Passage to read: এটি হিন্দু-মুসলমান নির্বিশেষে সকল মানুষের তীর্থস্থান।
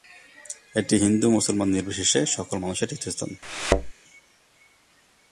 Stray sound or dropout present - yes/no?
yes